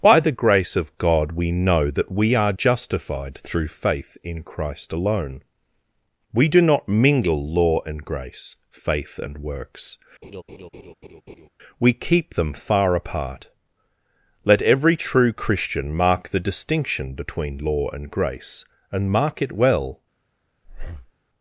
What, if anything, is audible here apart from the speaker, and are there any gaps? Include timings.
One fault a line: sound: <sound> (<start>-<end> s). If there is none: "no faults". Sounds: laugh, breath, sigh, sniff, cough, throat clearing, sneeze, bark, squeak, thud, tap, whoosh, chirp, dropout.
sound: laugh (10.2-11.5 s)
sound: breath (20.6-21.1 s)